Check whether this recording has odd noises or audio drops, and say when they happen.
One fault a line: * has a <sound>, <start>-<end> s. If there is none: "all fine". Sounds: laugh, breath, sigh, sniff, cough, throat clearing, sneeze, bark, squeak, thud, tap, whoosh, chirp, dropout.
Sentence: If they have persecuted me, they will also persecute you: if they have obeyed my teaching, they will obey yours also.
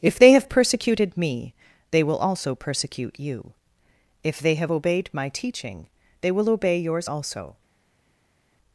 all fine